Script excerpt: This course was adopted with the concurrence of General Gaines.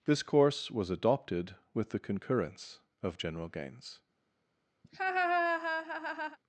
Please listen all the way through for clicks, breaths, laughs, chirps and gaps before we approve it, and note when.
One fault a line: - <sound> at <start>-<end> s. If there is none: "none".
- laugh at 4.8-6.4 s